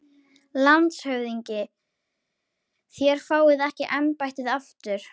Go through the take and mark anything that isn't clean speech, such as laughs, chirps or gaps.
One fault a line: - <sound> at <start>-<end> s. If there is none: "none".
none